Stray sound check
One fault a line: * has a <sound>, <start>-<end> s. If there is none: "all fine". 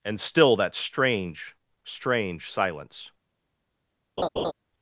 * has a laugh, 4.2-4.5 s